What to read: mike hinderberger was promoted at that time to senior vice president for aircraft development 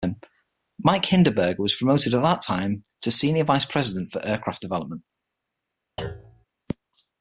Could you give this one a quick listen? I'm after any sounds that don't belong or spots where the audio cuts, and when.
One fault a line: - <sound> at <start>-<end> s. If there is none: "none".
- thud at 6.0-6.4 s